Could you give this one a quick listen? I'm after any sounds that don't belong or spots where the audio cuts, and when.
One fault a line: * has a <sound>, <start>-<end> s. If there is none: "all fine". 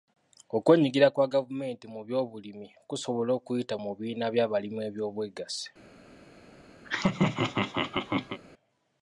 * has a laugh, 6.8-8.4 s